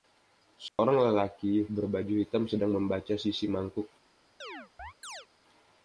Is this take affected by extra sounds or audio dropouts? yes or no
yes